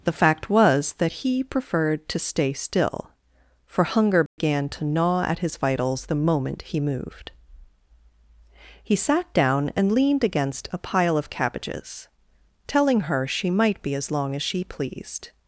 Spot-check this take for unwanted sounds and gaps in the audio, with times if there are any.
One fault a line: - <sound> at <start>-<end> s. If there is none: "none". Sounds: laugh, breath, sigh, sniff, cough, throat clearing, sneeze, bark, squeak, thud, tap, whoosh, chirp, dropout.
- dropout at 4.3-4.4 s